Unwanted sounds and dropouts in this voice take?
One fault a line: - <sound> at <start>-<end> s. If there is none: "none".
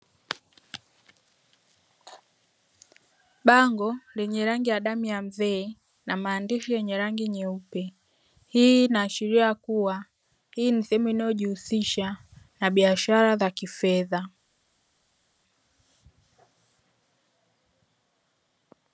none